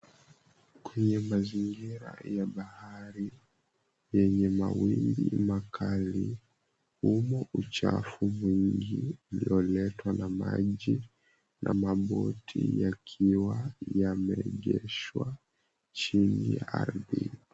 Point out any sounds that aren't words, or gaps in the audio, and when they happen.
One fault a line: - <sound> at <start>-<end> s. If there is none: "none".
none